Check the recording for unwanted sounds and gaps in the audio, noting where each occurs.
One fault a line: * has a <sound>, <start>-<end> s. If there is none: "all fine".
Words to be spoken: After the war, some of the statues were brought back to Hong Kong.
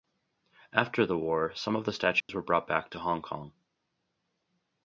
* has a dropout, 2.2-2.3 s